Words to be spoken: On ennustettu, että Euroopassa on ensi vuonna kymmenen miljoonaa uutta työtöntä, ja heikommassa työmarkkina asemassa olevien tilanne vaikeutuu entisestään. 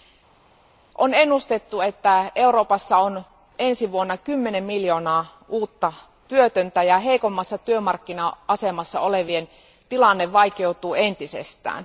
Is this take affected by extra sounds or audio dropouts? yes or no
no